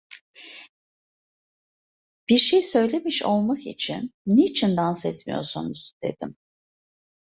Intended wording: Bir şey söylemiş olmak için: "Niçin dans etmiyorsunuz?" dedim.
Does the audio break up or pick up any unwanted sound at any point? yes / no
no